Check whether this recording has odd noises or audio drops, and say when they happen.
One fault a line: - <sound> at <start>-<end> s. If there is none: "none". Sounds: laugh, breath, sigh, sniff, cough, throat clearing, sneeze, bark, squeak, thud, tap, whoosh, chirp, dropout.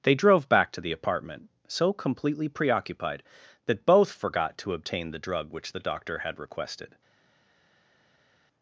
none